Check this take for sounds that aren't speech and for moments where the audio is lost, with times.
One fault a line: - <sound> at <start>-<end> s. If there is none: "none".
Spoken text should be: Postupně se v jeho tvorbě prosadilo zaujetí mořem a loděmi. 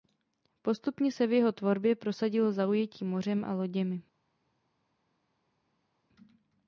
none